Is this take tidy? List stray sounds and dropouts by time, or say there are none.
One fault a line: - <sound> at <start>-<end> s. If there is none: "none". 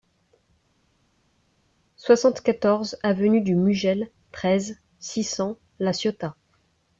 none